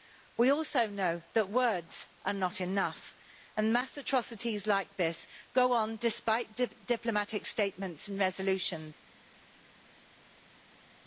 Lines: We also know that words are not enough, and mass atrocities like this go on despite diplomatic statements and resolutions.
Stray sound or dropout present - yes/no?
no